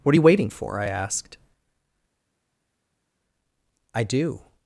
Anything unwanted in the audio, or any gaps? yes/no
no